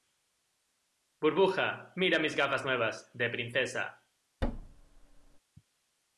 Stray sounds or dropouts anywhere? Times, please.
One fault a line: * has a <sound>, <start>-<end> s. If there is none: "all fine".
* has a thud, 4.4-5.4 s